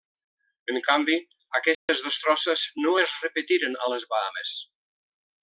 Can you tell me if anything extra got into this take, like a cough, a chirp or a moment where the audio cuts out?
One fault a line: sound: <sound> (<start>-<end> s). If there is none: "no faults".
sound: dropout (1.7-1.9 s)